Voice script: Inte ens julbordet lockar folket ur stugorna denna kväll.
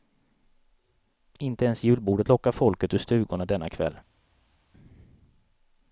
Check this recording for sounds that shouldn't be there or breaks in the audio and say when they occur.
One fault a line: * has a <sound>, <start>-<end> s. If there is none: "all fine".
all fine